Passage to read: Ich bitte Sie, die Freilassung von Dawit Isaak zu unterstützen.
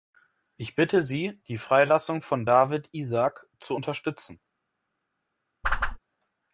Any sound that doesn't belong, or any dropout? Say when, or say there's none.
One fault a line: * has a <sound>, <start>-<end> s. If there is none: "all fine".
* has a whoosh, 5.6-6.0 s